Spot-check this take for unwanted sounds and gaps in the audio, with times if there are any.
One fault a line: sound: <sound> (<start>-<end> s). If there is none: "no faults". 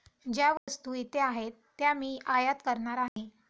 sound: dropout (0.6-0.7 s)
sound: dropout (3.1-3.2 s)